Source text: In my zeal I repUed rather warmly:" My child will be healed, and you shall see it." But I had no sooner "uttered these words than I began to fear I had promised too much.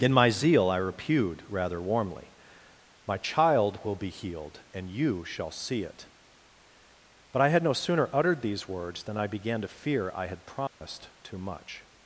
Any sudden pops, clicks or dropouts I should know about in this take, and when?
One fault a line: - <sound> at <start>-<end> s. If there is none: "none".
- dropout at 10.7-10.8 s